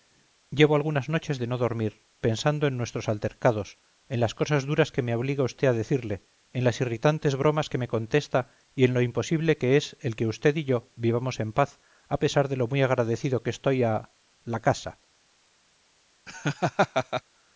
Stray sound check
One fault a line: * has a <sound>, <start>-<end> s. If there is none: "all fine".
* has a laugh, 16.3-17.2 s